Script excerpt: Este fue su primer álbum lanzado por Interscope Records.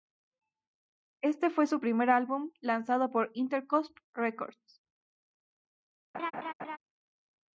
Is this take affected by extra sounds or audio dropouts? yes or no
yes